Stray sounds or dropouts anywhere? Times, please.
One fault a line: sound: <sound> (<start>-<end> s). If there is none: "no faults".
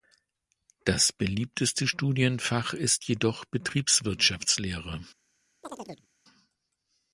sound: chirp (5.6-6.1 s)